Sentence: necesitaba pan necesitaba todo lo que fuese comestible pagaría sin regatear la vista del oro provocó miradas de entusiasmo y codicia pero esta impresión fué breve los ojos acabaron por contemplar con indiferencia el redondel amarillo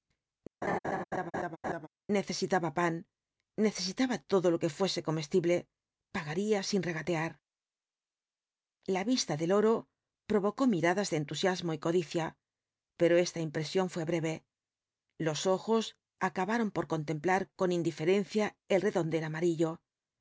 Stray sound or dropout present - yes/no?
yes